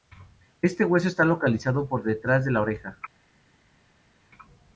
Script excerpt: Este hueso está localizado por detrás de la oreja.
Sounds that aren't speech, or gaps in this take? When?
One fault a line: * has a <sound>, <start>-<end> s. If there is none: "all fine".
all fine